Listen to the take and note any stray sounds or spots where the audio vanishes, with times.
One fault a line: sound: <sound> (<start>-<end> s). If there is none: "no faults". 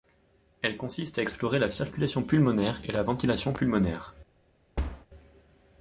sound: thud (4.8-5.1 s)